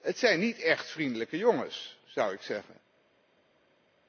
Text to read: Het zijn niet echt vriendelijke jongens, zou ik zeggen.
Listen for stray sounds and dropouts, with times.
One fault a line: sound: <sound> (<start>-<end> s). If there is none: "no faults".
no faults